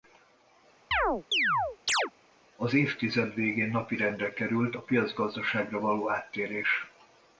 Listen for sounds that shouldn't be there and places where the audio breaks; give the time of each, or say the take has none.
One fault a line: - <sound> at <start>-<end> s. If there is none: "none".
- chirp at 0.9-2.1 s